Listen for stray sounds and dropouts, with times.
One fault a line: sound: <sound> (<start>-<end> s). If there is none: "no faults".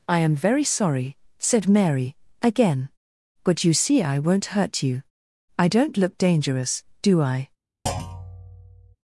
sound: thud (7.9-9.0 s)